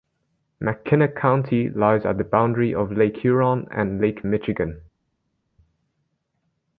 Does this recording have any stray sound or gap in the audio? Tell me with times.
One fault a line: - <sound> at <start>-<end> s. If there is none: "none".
none